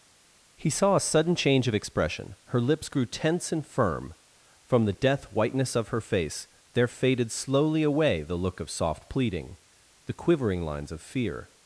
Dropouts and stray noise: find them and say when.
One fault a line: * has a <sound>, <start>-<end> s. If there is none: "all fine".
all fine